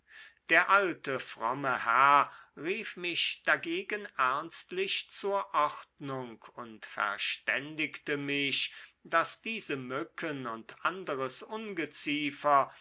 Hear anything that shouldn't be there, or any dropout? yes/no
no